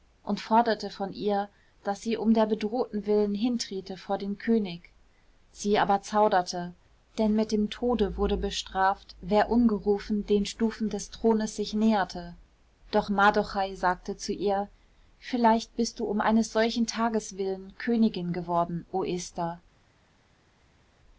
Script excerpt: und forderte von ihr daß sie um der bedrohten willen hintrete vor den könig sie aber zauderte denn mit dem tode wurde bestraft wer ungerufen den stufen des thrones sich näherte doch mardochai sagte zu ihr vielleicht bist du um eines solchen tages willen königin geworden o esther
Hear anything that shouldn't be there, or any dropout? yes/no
no